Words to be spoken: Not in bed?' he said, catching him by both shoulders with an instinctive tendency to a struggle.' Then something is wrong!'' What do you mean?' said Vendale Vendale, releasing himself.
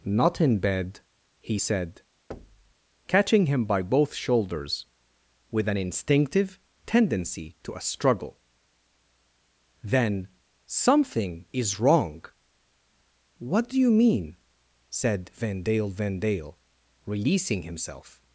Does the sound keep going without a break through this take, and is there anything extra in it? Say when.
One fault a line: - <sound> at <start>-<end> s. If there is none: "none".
- thud at 2.3-2.7 s